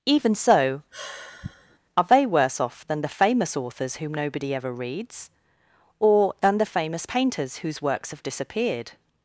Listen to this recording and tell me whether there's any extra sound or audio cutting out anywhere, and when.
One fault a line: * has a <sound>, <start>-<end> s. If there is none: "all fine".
* has a sigh, 0.9-1.8 s